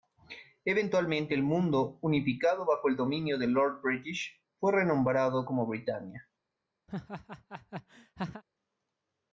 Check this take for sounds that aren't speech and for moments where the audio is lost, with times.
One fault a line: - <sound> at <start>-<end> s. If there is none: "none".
- laugh at 6.9-8.4 s